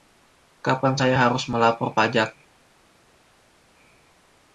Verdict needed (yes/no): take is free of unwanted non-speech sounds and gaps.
yes